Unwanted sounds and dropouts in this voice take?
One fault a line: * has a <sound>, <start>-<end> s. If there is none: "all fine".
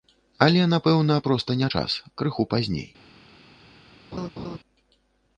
* has a laugh, 4.1-4.6 s